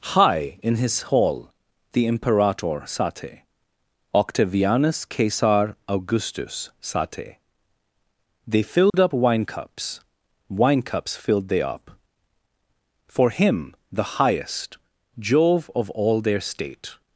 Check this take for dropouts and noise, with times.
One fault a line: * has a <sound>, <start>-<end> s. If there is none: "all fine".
* has a dropout, 8.9-8.9 s